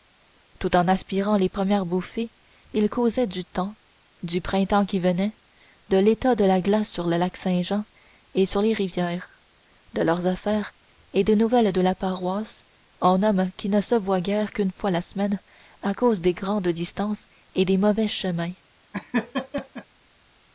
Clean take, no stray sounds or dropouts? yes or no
no